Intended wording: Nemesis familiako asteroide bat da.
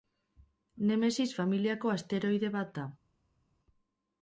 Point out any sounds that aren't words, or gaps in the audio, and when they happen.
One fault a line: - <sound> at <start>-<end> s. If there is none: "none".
none